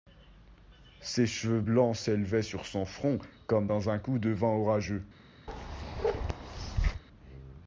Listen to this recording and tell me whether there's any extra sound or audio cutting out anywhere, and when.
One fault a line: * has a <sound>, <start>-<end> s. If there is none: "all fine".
* has a bark, 5.5-7.0 s